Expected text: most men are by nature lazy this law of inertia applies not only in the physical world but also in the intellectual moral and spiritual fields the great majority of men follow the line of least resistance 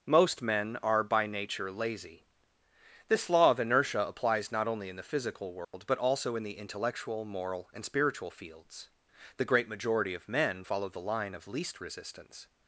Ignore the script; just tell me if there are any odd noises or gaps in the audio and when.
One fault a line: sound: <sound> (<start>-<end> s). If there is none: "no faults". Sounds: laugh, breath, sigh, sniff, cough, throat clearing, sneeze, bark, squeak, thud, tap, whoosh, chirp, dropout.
sound: dropout (5.6-5.7 s)